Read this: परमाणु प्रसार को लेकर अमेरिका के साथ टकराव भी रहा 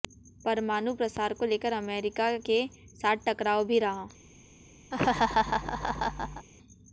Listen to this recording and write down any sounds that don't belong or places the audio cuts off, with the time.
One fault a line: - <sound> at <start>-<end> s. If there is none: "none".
- laugh at 4.9-6.5 s